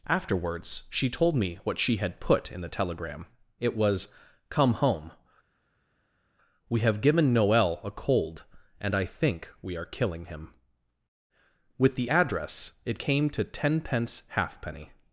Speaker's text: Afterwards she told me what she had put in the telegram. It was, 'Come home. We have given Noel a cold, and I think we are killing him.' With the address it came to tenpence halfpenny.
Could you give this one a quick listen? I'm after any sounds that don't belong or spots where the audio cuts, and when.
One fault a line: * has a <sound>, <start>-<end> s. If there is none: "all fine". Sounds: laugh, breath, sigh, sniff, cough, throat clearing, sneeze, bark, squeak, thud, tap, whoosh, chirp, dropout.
all fine